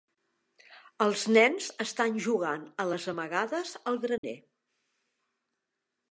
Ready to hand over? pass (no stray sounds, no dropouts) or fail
fail